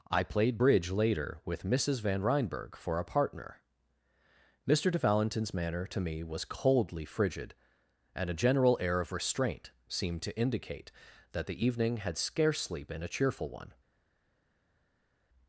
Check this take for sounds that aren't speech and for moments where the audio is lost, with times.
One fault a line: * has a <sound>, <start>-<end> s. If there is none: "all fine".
all fine